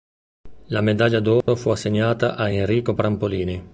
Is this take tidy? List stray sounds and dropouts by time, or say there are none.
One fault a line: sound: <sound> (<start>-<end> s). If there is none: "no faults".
sound: dropout (1.4-1.5 s)